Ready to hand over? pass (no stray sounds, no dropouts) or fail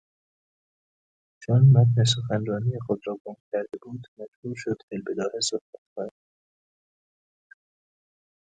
pass